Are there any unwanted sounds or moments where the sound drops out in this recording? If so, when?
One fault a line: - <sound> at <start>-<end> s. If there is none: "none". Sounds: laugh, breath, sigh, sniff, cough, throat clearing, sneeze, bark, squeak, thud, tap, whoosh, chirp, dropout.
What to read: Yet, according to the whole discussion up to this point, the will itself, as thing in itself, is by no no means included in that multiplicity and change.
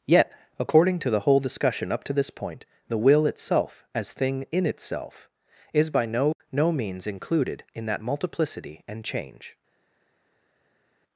none